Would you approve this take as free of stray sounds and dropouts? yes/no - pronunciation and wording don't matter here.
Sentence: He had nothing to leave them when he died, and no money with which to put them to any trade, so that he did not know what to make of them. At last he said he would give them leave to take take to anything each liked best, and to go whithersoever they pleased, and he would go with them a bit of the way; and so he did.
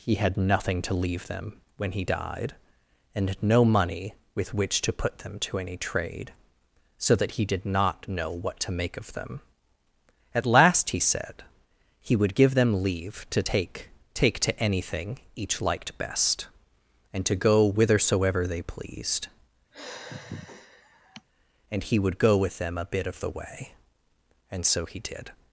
no